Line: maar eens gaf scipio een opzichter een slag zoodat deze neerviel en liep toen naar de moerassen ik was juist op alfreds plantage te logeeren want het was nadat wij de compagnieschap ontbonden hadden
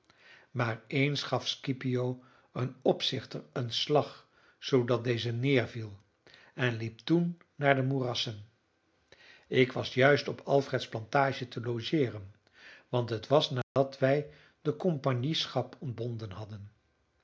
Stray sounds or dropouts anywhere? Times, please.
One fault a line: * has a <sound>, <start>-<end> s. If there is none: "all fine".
* has a dropout, 13.6-13.8 s